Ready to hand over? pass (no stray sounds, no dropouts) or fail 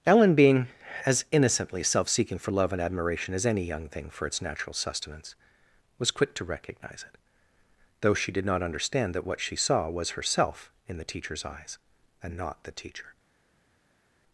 pass